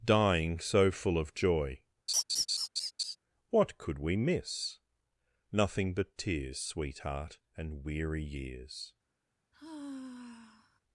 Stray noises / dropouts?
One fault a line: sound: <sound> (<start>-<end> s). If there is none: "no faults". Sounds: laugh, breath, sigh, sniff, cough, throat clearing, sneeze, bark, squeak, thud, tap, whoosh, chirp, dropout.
sound: laugh (2.1-3.2 s)
sound: sigh (9.5-10.8 s)